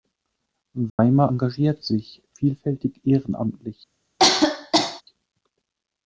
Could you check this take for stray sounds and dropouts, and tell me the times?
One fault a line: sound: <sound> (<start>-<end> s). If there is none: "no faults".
sound: dropout (0.9-1.0 s)
sound: cough (4.2-5.0 s)